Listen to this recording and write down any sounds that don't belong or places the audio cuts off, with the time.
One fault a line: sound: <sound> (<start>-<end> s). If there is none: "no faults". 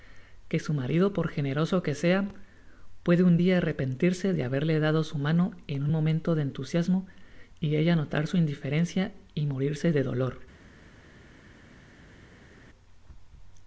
no faults